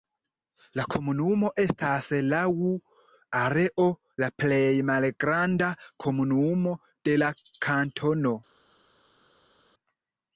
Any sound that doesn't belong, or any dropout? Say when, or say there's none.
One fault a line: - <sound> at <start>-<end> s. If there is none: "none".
none